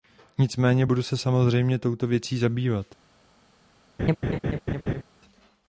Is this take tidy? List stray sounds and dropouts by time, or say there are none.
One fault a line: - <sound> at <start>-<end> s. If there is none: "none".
- laugh at 4.0-5.0 s